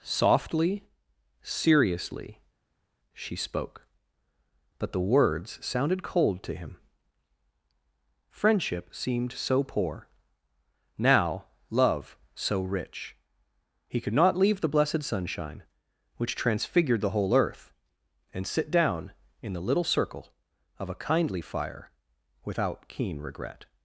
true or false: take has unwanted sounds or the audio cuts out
false